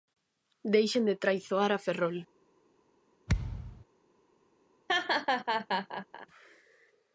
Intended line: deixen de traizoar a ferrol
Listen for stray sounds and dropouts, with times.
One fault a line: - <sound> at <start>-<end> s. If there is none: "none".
- thud at 3.3-3.9 s
- laugh at 4.9-6.3 s